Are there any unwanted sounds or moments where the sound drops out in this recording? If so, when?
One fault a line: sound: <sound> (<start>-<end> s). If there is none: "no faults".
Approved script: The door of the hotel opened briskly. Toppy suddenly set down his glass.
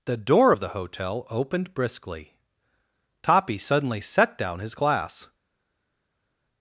no faults